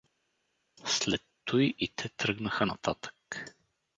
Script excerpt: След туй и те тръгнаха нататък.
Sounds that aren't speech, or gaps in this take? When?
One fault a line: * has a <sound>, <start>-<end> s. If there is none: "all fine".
all fine